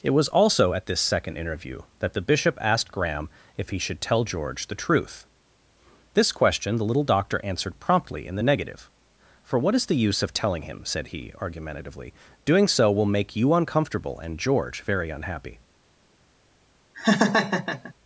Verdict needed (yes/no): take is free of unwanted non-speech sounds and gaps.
no